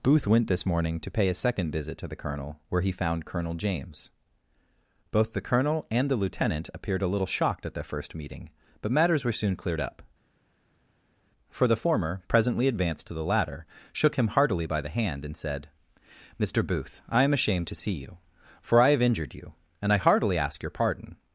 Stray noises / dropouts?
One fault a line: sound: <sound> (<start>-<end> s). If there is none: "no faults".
no faults